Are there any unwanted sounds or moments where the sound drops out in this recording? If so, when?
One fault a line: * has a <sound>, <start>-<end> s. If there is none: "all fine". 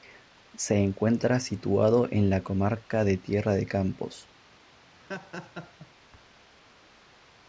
* has a laugh, 5.0-5.9 s